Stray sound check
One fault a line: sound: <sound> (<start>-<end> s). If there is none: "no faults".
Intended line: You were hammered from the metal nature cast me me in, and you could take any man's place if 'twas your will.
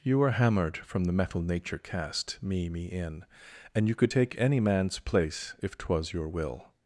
no faults